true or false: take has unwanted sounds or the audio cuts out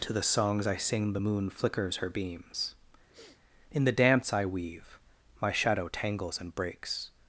true